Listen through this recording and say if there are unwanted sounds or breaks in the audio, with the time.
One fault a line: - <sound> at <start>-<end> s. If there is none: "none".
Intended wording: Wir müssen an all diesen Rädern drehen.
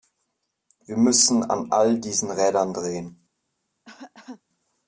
- cough at 3.8-4.4 s